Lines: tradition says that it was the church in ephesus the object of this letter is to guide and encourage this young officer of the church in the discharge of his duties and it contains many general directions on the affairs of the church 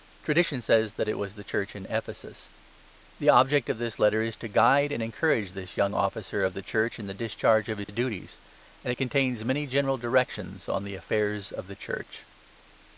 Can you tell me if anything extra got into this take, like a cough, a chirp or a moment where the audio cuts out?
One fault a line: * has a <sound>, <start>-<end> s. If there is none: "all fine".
* has a dropout, 7.8-7.9 s